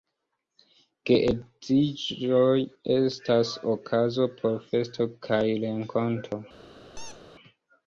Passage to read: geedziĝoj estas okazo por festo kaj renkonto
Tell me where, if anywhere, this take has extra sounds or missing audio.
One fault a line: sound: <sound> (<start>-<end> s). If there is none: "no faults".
sound: squeak (6.9-7.2 s)